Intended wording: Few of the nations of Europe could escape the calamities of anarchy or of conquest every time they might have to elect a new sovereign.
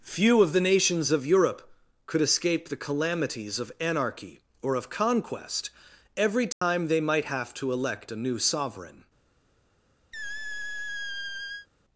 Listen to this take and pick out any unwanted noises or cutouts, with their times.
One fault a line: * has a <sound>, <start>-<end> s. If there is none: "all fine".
* has a dropout, 6.5-6.6 s
* has a squeak, 10.1-11.7 s